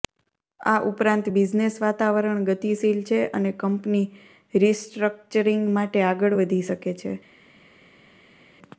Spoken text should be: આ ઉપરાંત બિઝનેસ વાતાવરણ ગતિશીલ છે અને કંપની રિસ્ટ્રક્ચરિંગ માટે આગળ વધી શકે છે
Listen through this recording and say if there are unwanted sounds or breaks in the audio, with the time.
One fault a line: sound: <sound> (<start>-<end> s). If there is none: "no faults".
no faults